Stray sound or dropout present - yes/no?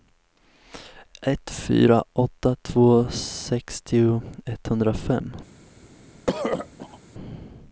yes